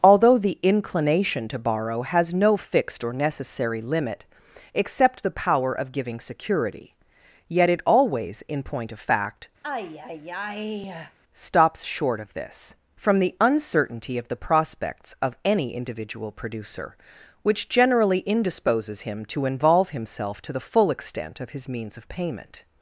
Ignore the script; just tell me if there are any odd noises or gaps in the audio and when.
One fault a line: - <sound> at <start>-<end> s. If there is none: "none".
- sigh at 9.6-11.2 s